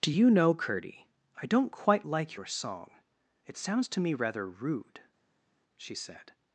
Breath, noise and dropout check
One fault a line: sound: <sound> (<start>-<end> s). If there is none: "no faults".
no faults